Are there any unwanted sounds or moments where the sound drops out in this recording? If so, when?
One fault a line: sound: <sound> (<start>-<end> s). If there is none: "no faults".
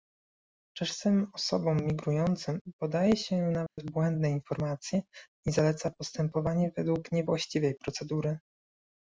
sound: dropout (3.7-3.8 s)